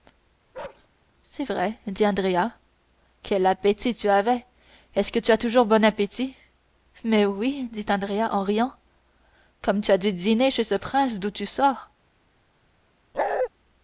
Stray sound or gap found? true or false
true